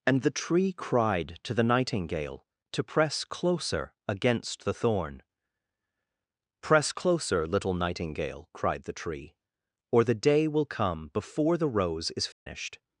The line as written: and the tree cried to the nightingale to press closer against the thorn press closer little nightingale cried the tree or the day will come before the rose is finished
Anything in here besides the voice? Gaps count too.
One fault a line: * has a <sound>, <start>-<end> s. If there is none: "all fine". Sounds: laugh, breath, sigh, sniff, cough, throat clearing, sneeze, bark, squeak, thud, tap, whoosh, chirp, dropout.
* has a dropout, 12.3-12.5 s